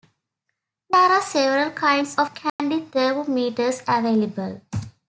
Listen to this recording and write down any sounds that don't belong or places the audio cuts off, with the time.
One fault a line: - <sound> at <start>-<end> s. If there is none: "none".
- dropout at 2.5-2.6 s